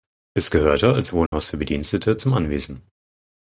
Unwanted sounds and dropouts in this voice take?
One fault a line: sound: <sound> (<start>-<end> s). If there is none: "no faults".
sound: dropout (1.3-1.3 s)